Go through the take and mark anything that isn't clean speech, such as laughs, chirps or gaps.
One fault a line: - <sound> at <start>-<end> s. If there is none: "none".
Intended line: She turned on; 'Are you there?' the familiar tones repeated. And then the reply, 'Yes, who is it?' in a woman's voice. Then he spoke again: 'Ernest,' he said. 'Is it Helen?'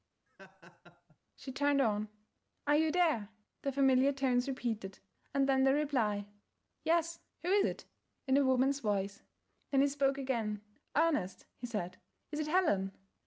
- laugh at 0.3-1.2 s